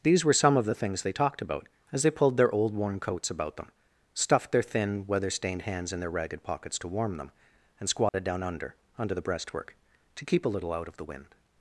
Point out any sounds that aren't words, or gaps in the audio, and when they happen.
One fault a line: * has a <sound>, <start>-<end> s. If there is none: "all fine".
* has a dropout, 8.1-8.1 s